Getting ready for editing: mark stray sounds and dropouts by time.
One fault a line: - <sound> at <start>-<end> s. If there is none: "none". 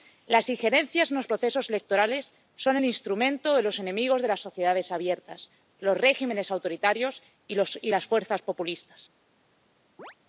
- chirp at 10.0-10.2 s